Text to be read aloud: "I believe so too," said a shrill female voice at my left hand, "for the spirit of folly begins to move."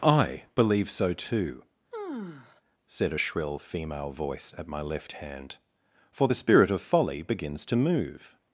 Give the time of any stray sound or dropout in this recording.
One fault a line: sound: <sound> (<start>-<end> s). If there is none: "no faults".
sound: sigh (1.9-2.6 s)